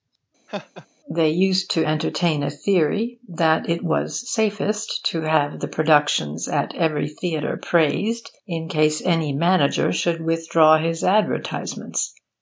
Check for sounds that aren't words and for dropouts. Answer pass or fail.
fail